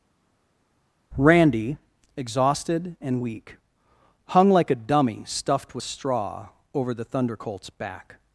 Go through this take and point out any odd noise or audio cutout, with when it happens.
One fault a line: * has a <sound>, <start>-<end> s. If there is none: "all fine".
all fine